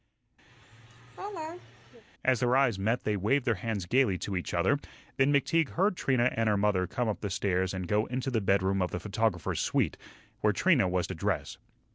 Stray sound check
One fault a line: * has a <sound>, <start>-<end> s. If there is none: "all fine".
* has a laugh, 0.5-2.0 s